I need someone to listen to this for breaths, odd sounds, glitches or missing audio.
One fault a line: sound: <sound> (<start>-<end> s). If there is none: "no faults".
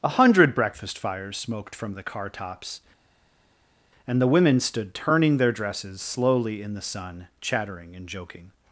no faults